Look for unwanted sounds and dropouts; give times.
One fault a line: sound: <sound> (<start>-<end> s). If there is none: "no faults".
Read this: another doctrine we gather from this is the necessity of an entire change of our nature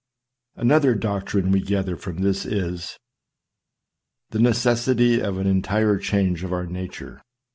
no faults